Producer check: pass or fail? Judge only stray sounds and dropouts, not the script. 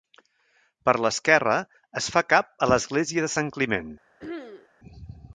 fail